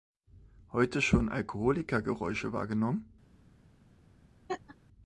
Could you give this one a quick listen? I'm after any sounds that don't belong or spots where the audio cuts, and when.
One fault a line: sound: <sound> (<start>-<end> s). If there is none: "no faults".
sound: laugh (4.5-4.8 s)